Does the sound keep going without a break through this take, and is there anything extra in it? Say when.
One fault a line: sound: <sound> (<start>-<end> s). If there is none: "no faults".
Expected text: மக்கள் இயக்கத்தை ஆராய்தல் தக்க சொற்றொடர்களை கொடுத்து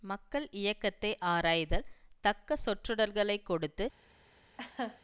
sound: laugh (4.6-5.0 s)